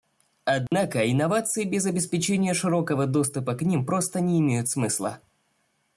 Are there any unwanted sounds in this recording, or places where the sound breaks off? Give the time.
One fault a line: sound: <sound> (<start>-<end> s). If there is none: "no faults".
sound: dropout (0.7-0.7 s)